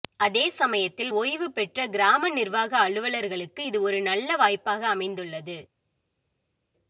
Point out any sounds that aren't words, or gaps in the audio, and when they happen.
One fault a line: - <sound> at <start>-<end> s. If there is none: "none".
none